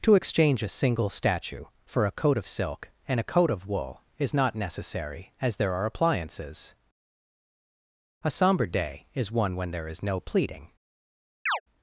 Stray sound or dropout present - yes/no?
yes